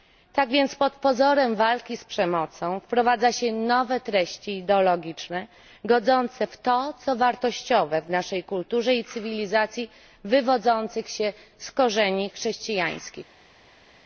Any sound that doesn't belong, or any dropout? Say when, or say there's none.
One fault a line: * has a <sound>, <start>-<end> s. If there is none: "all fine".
all fine